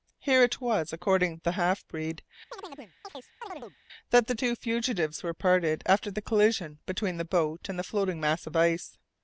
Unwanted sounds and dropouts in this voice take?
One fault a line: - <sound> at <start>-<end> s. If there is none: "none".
- chirp at 2.5-3.8 s